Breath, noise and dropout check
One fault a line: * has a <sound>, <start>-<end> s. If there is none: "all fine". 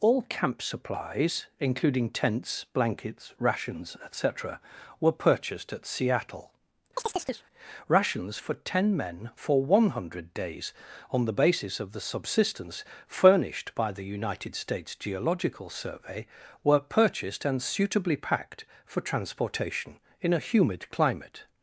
* has a chirp, 7.0-7.5 s